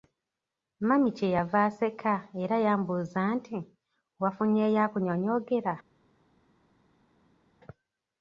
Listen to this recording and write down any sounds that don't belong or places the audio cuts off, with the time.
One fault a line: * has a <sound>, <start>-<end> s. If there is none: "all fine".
all fine